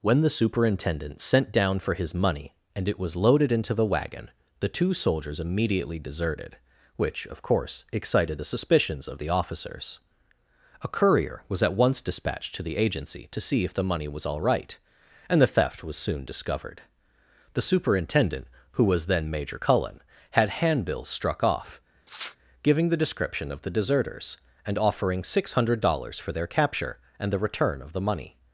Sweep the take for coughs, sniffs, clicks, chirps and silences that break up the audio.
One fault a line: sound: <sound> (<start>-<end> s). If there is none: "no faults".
sound: sniff (22.1-22.4 s)